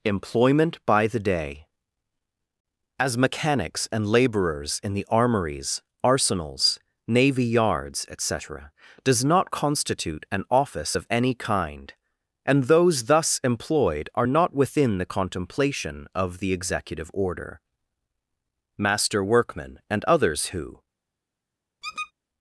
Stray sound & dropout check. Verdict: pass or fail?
fail